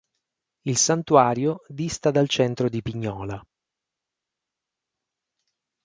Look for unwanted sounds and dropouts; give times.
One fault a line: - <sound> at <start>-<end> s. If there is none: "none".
none